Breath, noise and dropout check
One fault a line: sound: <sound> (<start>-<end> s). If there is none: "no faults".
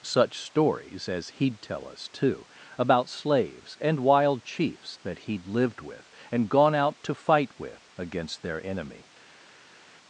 no faults